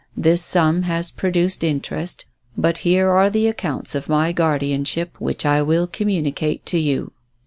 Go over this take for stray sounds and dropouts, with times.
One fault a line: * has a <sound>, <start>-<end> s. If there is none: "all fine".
all fine